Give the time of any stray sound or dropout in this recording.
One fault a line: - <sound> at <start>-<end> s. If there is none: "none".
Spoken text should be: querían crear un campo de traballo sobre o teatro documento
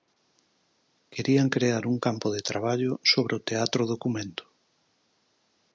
none